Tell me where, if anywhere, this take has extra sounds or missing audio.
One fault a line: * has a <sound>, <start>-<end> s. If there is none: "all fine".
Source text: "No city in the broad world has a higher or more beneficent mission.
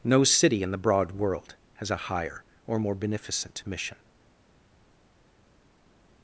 all fine